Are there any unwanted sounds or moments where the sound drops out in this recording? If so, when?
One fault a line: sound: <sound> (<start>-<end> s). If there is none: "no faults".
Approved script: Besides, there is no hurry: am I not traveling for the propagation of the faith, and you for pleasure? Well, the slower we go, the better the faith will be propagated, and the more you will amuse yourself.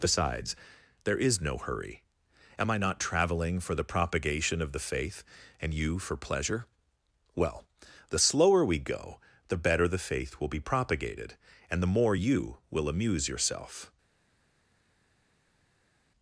no faults